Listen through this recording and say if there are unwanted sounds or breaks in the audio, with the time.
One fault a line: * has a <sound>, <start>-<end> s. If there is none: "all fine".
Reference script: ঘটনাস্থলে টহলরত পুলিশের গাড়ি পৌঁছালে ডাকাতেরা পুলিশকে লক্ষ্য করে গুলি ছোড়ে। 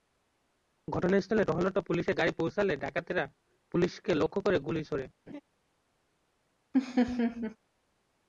* has a laugh, 5.3-5.4 s
* has a laugh, 6.7-7.6 s